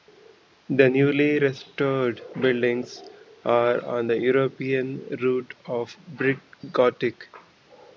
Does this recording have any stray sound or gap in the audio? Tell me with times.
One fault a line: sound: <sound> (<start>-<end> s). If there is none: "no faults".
no faults